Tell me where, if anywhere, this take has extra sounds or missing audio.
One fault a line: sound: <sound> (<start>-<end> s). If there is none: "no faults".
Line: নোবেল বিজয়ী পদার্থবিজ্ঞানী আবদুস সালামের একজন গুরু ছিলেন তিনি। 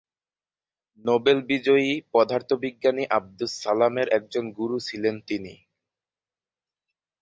no faults